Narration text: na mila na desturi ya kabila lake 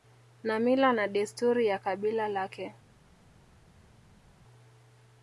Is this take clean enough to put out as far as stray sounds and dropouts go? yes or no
yes